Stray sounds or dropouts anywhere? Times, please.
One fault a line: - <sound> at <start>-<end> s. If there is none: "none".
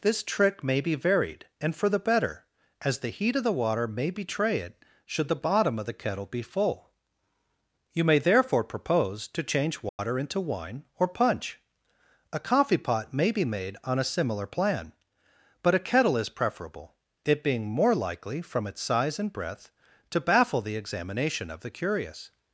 - dropout at 9.9-10.0 s